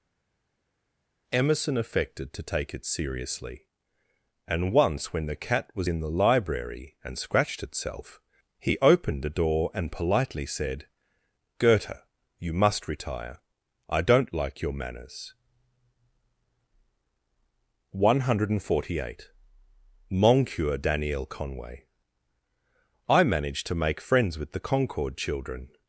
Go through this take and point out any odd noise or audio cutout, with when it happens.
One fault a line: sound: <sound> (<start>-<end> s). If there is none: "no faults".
no faults